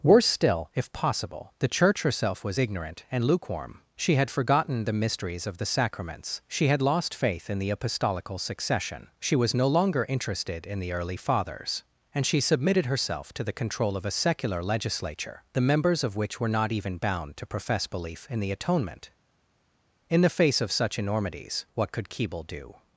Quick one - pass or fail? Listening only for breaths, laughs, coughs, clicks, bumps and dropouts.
pass